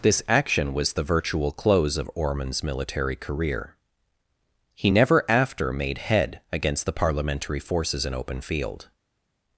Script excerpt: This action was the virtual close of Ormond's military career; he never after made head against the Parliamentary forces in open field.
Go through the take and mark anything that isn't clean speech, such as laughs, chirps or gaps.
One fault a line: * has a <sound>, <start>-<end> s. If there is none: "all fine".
all fine